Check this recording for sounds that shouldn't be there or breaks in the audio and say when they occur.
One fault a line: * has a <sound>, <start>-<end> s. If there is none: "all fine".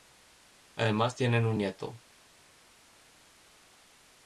all fine